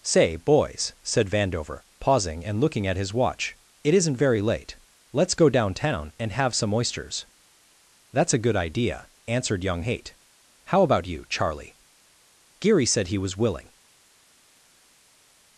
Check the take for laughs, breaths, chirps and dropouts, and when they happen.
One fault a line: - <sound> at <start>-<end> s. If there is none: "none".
none